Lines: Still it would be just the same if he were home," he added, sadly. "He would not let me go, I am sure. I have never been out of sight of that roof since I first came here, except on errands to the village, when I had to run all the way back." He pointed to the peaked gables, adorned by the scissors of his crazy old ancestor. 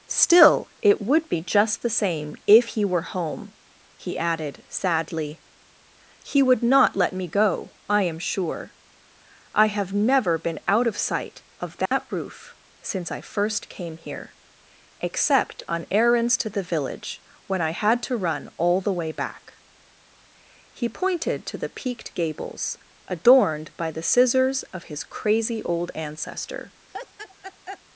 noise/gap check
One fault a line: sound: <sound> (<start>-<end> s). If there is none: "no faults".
sound: dropout (11.9-11.9 s)
sound: laugh (26.9-27.8 s)